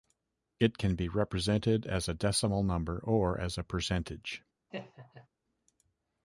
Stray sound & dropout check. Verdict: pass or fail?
fail